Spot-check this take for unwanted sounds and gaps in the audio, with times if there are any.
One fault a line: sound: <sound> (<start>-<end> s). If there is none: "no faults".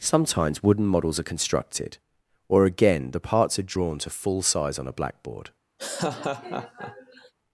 sound: laugh (5.8-7.3 s)